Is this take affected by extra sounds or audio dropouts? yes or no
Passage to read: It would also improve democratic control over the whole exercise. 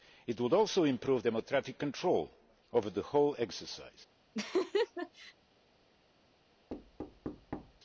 yes